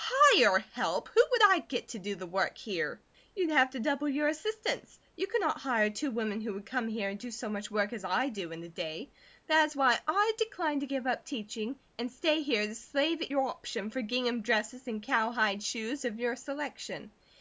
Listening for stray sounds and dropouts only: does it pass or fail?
pass